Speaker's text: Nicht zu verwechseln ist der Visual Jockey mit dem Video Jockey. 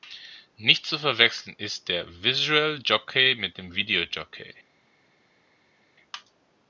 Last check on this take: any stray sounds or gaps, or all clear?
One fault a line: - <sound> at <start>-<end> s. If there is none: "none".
none